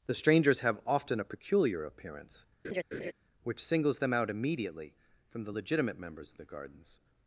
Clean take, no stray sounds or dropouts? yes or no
no